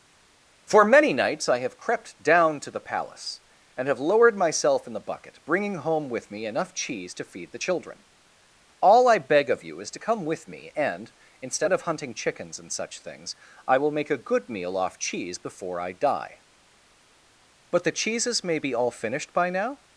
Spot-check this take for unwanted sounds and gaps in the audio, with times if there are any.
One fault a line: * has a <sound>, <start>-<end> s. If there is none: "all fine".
all fine